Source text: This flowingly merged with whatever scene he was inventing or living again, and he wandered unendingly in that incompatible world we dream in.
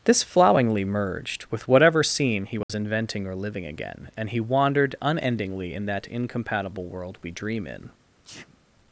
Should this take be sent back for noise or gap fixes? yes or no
yes